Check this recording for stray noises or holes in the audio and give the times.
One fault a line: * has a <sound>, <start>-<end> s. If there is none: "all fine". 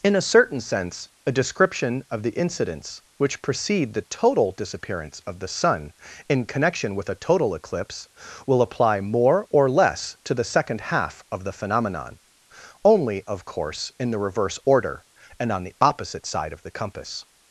all fine